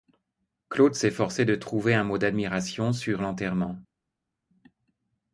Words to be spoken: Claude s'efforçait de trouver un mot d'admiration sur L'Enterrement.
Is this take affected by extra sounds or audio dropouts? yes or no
no